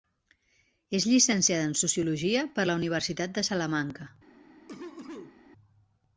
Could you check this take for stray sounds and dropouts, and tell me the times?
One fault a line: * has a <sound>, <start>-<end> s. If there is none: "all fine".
* has a cough, 4.7-5.4 s